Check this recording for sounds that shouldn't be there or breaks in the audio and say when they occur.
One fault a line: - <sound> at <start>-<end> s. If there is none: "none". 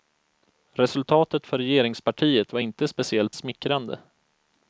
none